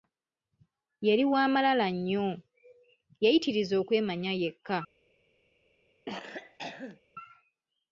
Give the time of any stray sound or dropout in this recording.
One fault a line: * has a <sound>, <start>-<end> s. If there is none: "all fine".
* has a cough, 6.1-7.0 s